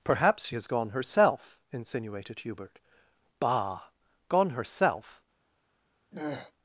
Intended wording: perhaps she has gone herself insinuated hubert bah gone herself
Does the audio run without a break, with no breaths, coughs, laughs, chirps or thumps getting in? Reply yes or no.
no